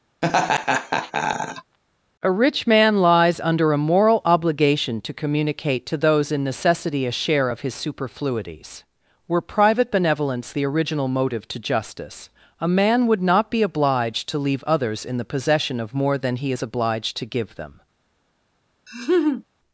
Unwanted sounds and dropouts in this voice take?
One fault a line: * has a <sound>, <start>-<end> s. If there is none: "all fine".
* has a laugh, 0.2-1.8 s
* has a laugh, 18.9-19.4 s